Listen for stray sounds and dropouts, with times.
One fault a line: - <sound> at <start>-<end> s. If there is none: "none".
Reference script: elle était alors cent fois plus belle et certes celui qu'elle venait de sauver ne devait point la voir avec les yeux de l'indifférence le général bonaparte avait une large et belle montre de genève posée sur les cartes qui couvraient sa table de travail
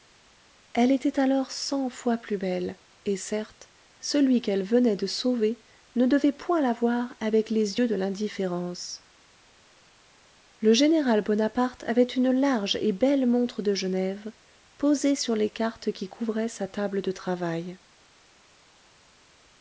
none